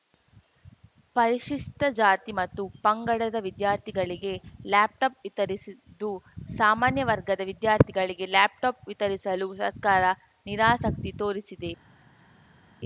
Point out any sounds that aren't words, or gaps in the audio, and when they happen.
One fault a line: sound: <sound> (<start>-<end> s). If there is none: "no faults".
no faults